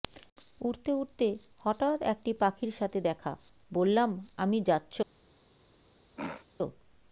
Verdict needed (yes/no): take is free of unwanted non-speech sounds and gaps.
no